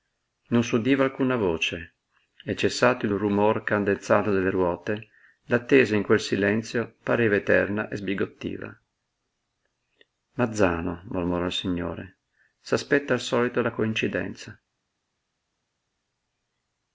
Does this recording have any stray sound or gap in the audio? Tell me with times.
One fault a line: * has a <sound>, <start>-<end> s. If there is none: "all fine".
all fine